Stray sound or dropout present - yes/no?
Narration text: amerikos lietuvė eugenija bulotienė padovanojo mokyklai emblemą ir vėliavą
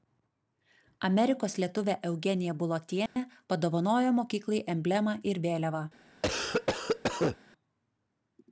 yes